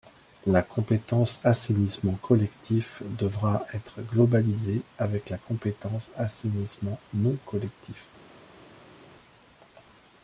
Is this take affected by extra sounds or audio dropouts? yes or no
no